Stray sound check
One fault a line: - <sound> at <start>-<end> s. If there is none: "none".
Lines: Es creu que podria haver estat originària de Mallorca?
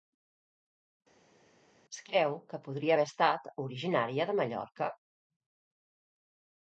none